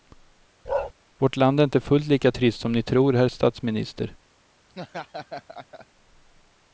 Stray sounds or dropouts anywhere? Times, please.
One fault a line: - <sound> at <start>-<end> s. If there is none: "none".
- bark at 0.7-0.9 s
- laugh at 4.7-5.9 s